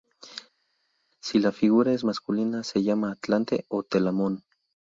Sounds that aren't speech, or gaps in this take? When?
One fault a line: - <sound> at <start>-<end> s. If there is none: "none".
none